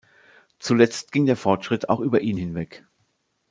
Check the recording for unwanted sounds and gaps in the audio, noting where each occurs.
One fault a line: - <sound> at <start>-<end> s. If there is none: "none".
none